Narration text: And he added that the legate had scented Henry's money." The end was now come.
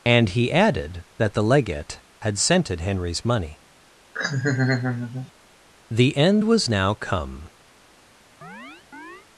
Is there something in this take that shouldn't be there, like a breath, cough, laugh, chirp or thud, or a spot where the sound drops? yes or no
yes